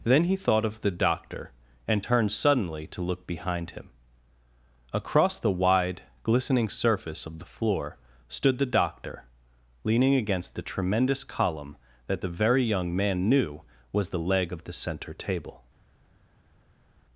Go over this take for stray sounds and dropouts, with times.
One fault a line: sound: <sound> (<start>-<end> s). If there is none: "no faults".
no faults